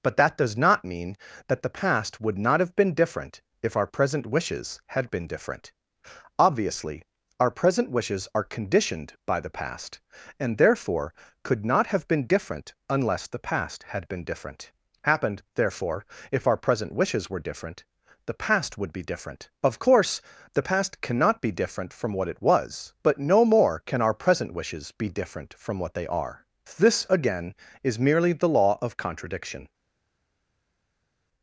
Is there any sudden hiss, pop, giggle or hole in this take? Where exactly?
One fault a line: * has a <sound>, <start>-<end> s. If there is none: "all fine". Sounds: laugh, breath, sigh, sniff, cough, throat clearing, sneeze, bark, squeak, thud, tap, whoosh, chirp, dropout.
all fine